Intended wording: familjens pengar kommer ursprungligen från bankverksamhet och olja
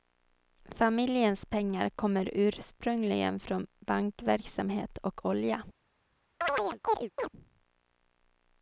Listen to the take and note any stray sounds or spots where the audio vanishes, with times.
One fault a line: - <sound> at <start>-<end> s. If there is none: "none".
- chirp at 6.4-7.3 s